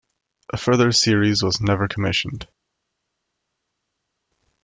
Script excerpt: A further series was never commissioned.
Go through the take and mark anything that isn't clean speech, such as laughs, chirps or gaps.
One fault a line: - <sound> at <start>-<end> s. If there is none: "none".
none